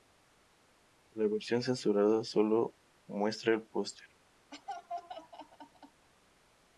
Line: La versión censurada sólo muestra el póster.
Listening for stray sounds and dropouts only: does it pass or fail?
fail